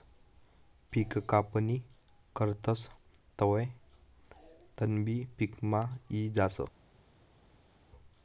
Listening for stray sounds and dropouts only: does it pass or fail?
pass